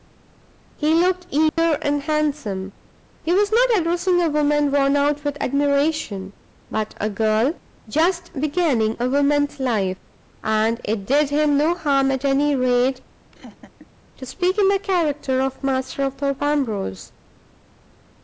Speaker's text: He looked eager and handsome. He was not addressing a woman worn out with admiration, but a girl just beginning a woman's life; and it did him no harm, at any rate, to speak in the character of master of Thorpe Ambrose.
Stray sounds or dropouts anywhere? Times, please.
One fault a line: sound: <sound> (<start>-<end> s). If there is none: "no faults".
sound: dropout (1.5-1.6 s)
sound: laugh (13.3-13.9 s)